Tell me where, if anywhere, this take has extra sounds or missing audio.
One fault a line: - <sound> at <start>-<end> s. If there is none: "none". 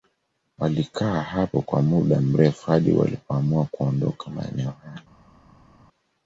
none